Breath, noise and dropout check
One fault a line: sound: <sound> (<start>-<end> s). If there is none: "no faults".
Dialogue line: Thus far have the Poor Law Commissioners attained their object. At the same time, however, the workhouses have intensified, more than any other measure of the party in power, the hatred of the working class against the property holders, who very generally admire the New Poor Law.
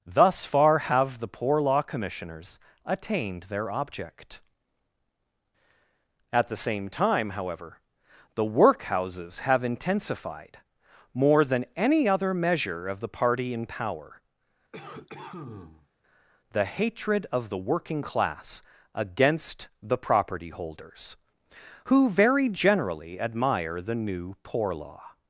sound: cough (14.7-15.9 s)